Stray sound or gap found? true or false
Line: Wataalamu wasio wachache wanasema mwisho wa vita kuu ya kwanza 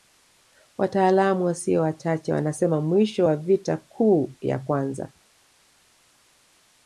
false